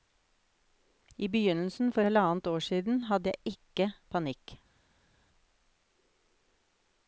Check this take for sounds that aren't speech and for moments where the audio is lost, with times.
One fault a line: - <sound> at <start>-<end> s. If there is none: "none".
none